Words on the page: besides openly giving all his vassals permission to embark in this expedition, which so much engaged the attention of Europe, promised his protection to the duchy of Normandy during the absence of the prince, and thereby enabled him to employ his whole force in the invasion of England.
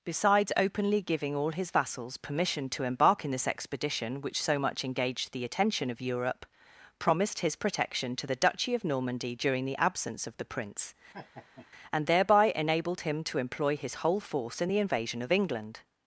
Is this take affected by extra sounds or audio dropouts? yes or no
yes